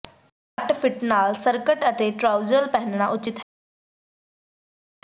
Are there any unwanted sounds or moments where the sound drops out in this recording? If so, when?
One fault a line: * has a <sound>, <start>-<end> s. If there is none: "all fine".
all fine